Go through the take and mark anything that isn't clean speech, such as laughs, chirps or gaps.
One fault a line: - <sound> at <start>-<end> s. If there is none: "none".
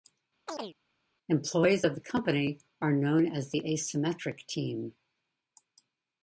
- chirp at 0.5-0.8 s